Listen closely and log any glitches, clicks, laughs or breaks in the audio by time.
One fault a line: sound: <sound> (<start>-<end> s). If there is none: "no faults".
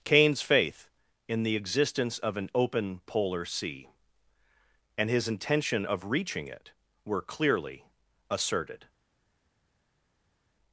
no faults